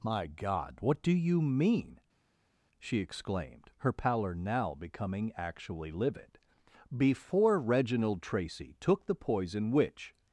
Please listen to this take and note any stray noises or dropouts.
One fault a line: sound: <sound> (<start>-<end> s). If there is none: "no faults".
no faults